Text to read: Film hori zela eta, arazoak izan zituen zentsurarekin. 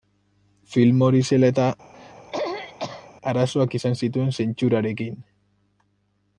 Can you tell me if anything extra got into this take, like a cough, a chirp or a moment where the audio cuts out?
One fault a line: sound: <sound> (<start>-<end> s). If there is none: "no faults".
sound: throat clearing (1.9-3.1 s)